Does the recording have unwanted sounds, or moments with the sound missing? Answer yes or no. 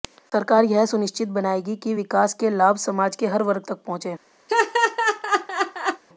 yes